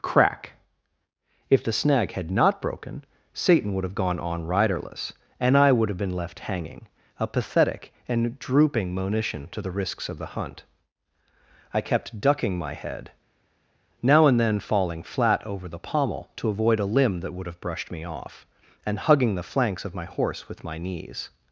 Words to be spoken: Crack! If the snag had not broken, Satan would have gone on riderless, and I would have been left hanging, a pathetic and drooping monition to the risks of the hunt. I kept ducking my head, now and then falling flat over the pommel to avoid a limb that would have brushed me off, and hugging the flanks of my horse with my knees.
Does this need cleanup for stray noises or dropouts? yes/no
no